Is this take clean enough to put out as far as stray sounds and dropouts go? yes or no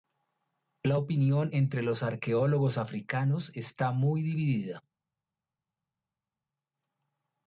yes